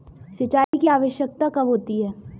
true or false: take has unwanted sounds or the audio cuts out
true